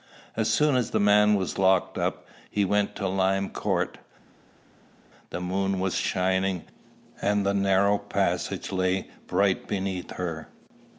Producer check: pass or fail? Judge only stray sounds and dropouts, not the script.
pass